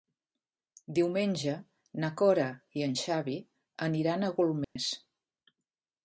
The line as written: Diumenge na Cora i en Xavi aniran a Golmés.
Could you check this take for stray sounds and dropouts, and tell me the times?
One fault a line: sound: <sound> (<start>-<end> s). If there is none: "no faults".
sound: dropout (4.6-4.8 s)